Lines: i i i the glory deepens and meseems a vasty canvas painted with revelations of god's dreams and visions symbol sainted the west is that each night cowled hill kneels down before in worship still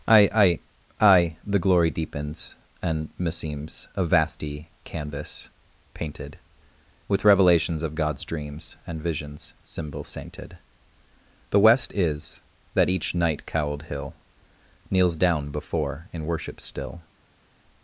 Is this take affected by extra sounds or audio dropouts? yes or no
no